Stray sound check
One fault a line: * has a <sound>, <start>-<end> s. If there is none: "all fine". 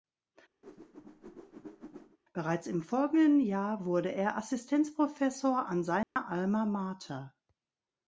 * has a whoosh, 0.6-2.2 s
* has a dropout, 6.0-6.2 s